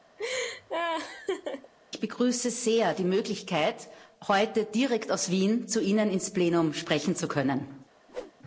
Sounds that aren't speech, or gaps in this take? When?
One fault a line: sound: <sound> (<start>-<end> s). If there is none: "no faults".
sound: laugh (0.2-1.7 s)
sound: whoosh (8.1-8.3 s)